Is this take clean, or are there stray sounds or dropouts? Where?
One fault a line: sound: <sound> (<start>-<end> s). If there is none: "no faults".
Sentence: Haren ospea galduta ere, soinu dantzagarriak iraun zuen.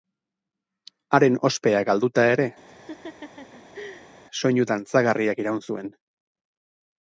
sound: laugh (2.7-4.1 s)